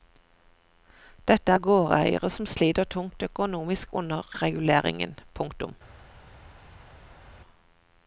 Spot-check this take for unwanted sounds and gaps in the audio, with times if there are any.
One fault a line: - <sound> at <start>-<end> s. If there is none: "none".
none